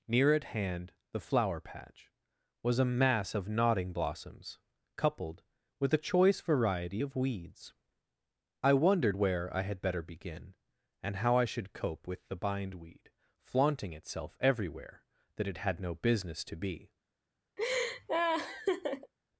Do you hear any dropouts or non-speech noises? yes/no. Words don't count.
yes